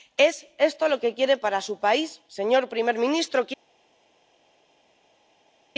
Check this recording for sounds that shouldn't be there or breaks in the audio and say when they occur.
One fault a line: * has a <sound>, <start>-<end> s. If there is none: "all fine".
all fine